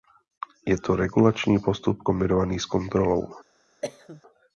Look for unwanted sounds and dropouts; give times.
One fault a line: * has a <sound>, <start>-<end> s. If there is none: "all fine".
* has a cough, 3.8-4.2 s